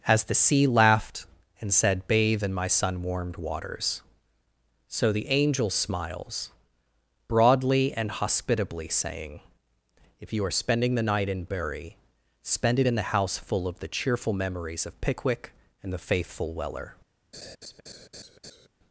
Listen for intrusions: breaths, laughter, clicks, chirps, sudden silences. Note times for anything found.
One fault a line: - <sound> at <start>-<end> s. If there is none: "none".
- laugh at 17.3-18.7 s